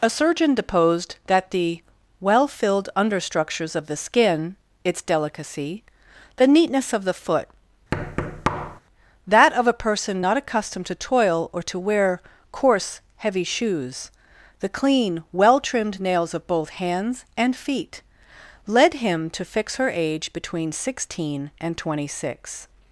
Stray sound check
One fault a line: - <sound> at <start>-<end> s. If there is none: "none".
- thud at 7.9-8.8 s